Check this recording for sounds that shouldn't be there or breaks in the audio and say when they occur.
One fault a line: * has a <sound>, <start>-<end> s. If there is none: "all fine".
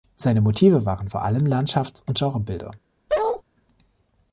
* has a bark, 3.1-3.4 s